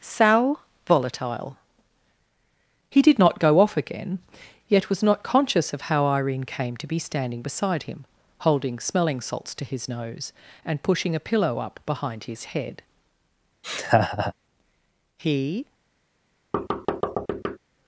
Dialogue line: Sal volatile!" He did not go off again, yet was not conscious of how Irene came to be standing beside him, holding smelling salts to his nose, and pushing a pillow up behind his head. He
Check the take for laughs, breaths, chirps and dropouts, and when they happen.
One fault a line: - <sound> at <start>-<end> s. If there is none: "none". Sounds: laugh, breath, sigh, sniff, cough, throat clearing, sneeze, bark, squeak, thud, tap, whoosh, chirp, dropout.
- laugh at 13.6-14.3 s
- thud at 16.5-17.6 s